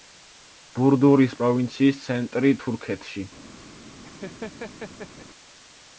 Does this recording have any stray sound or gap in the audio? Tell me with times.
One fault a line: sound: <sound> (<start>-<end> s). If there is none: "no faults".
sound: laugh (4.0-5.3 s)